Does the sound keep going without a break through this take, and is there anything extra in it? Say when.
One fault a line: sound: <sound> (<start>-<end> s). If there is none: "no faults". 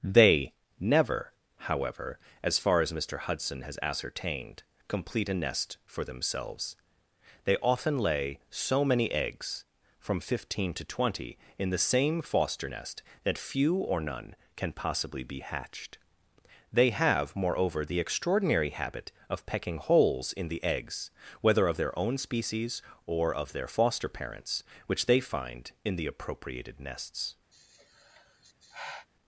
sound: sigh (27.5-29.1 s)